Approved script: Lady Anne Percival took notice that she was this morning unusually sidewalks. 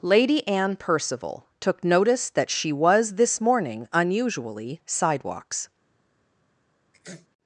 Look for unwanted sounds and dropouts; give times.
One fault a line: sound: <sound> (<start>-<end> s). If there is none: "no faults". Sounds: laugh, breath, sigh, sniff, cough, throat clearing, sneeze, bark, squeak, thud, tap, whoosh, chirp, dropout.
sound: sneeze (6.9-7.3 s)